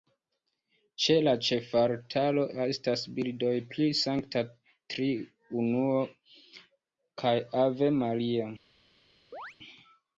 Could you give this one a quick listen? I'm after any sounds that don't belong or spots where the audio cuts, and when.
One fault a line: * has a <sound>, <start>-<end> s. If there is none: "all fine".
* has a chirp, 9.3-9.6 s